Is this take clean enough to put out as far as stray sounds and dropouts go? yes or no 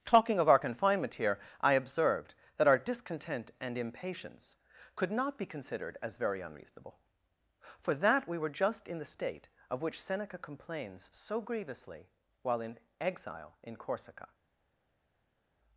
yes